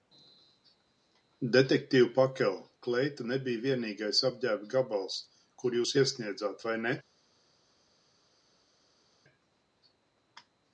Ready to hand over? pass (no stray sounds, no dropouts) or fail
pass